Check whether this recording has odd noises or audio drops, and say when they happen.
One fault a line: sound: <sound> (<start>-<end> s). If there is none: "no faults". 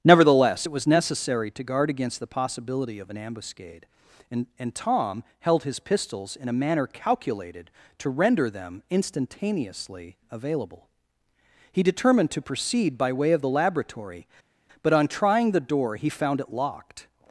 no faults